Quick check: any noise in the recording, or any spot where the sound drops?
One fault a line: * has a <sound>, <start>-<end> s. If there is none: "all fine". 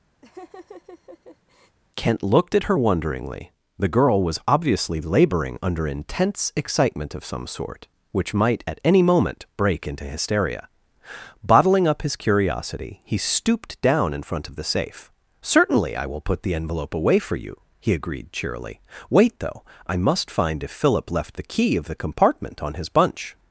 * has a laugh, 0.2-1.8 s